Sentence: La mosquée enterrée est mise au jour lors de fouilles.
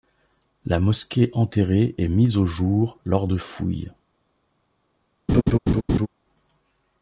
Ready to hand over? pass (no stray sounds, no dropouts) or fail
fail